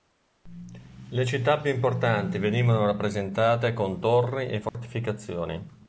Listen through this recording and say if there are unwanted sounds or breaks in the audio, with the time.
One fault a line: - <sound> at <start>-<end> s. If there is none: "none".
- dropout at 4.7-4.7 s